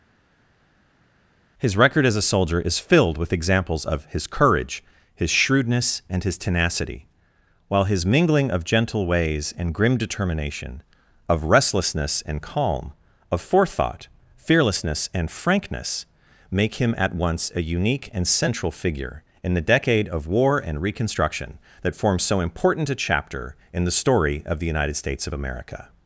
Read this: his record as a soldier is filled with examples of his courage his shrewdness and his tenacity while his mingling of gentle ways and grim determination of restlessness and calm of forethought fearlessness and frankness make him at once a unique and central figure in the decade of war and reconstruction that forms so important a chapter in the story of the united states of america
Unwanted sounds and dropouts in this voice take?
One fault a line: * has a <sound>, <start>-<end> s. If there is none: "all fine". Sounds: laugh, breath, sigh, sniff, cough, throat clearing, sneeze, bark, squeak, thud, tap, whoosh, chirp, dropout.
all fine